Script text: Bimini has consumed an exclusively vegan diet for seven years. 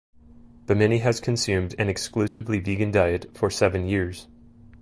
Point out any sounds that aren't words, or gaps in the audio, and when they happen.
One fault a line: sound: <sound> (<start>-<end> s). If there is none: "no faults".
sound: dropout (2.3-2.4 s)